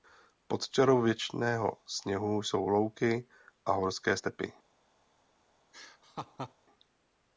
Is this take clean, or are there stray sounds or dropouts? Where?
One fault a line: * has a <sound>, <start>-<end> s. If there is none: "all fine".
* has a laugh, 5.7-6.5 s